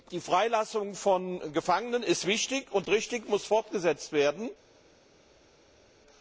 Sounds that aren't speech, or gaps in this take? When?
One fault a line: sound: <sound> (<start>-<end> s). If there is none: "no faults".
no faults